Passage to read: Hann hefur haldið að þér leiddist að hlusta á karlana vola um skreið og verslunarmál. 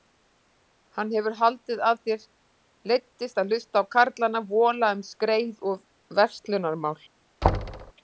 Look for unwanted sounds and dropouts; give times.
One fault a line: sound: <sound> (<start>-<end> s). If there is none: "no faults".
sound: thud (7.4-7.9 s)